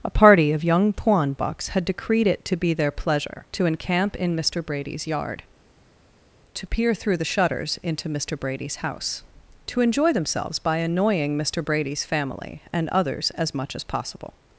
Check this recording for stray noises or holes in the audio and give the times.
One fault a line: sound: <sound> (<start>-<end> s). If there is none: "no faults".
no faults